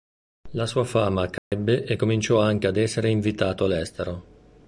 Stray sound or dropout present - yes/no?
yes